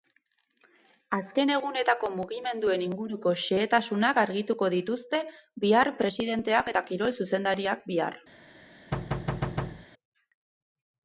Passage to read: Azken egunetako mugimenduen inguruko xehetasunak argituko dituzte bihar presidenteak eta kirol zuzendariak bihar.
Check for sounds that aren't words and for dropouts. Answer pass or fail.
fail